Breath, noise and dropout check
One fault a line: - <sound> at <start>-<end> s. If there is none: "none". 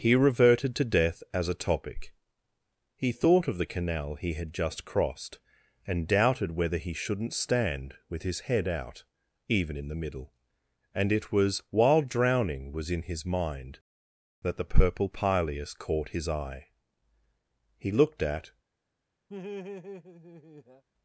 - laugh at 19.3-20.8 s